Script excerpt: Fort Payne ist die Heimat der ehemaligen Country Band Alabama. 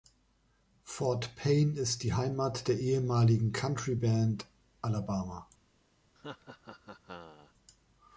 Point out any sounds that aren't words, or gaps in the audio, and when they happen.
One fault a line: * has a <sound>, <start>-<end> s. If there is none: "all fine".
* has a laugh, 6.2-7.5 s